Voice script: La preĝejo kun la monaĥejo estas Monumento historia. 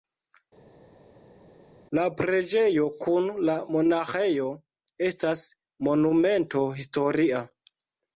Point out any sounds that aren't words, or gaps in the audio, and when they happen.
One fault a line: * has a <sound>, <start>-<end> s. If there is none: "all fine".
all fine